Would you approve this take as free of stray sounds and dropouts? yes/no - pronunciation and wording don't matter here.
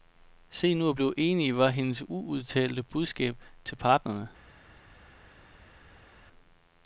yes